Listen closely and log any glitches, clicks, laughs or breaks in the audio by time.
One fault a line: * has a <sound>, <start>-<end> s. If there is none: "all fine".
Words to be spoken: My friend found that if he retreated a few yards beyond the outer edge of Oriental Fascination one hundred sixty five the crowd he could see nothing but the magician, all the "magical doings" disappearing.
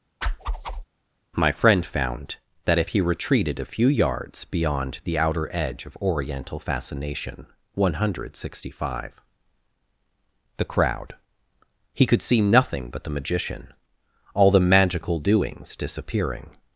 * has a whoosh, 0.2-0.8 s